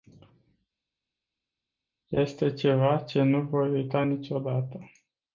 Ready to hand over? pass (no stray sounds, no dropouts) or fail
pass